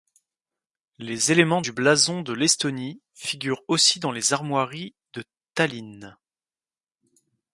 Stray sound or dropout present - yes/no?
no